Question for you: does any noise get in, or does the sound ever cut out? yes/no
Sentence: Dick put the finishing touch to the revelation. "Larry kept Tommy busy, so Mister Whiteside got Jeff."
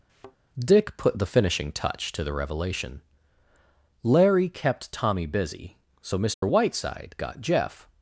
yes